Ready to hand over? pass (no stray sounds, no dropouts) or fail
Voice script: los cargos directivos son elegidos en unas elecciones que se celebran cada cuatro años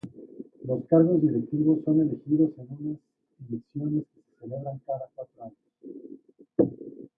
pass